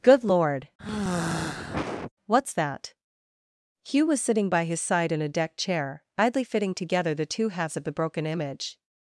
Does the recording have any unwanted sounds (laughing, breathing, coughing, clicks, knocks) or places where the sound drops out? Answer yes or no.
yes